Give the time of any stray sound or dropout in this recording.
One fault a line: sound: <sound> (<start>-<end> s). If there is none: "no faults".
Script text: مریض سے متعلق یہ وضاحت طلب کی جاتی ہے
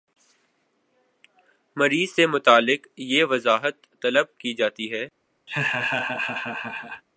sound: laugh (5.5-7.0 s)